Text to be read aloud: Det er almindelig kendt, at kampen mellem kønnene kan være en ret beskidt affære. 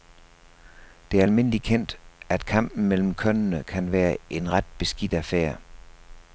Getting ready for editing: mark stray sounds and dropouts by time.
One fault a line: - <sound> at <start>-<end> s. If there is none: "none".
none